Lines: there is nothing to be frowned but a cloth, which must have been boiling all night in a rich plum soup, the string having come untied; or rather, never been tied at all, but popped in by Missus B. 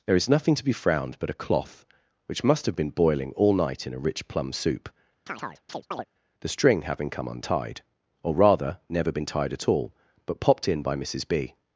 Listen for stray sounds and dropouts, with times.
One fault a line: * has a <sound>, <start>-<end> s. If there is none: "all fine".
* has a chirp, 5.3-6.1 s